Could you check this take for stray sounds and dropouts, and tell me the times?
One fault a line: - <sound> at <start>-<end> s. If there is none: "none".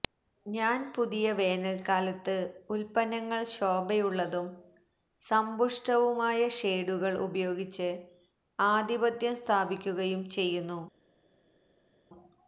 none